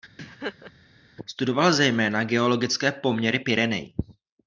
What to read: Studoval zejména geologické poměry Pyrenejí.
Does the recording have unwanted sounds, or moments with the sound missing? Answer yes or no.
yes